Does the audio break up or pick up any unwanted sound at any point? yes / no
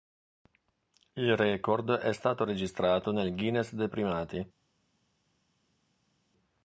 no